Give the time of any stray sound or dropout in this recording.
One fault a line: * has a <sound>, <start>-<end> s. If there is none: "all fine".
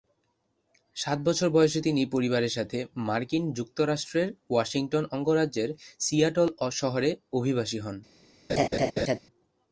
* has a laugh, 8.5-9.2 s